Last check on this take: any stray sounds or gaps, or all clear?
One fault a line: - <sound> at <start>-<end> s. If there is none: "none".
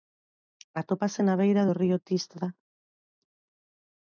none